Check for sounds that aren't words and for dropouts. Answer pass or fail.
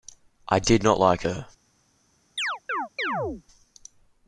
fail